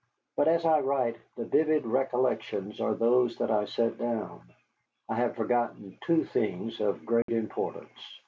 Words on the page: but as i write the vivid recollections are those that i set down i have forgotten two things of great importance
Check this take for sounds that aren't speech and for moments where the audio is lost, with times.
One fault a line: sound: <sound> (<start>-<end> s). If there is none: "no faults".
sound: dropout (7.2-7.3 s)